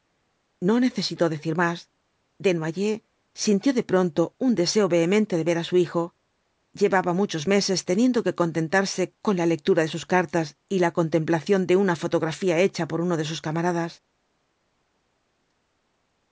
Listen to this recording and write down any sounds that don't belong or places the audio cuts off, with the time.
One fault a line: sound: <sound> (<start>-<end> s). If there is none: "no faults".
no faults